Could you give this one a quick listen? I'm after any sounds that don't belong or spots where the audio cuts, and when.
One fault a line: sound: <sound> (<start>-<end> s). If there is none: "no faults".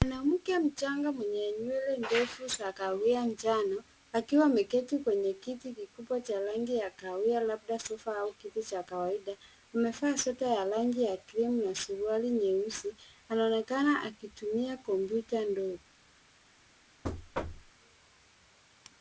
sound: thud (17.0-17.7 s)